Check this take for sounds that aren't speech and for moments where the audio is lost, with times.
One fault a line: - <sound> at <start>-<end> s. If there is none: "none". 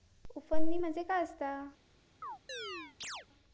- chirp at 2.2-3.3 s